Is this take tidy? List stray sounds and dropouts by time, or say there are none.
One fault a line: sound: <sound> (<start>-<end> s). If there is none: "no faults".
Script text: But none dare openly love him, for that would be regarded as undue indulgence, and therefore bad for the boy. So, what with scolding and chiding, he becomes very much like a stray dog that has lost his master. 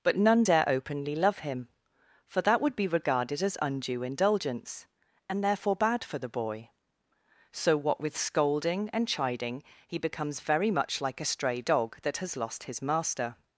no faults